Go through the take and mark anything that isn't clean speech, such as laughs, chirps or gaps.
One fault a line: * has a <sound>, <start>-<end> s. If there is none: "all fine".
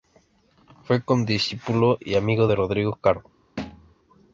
* has a thud, 3.6-3.9 s